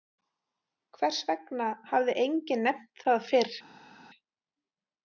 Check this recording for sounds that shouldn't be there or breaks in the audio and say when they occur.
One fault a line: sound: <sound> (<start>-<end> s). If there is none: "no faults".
no faults